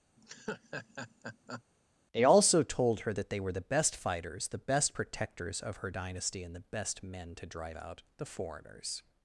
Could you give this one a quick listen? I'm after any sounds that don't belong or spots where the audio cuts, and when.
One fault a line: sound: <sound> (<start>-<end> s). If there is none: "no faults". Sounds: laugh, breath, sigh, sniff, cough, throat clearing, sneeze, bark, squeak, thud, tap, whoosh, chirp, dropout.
sound: laugh (0.2-1.6 s)